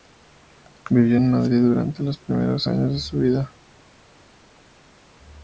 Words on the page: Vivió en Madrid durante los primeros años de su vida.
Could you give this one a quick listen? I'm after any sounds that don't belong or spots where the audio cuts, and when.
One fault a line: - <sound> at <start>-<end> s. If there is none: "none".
none